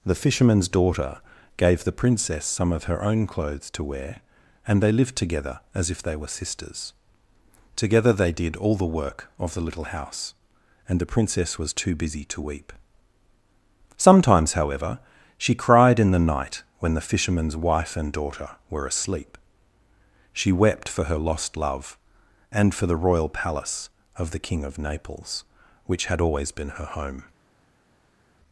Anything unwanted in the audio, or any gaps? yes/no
no